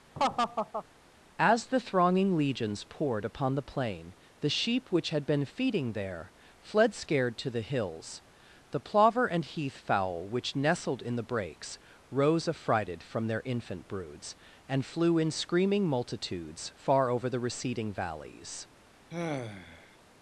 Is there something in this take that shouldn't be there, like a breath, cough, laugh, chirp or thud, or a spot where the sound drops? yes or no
yes